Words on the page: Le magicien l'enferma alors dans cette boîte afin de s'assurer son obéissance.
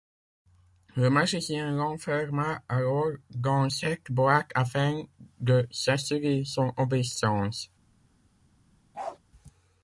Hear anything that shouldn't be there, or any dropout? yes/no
yes